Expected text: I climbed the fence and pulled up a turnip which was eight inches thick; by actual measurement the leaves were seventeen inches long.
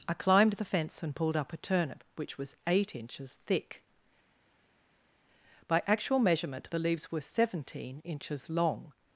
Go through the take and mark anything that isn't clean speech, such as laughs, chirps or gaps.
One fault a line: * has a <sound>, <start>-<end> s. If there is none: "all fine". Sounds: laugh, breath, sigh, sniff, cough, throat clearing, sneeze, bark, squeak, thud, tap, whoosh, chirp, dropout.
all fine